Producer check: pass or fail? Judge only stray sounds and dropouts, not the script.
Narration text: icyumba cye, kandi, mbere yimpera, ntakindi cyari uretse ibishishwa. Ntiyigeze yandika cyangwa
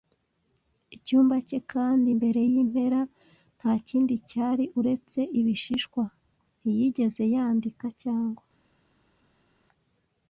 pass